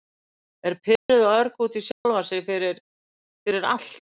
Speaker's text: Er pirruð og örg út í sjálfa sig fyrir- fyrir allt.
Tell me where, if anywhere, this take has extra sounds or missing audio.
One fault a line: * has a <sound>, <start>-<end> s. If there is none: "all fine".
* has a dropout, 1.0-1.1 s
* has a dropout, 1.9-2.1 s